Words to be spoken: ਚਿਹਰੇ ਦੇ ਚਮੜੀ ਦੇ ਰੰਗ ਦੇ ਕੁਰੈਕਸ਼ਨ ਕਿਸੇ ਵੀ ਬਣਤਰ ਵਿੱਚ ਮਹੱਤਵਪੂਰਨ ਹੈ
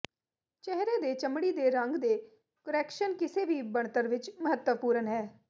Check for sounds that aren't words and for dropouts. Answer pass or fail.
pass